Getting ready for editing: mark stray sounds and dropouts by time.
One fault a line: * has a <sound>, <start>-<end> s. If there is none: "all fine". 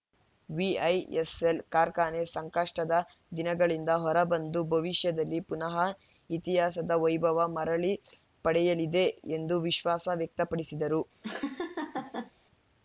* has a laugh, 11.2-12.3 s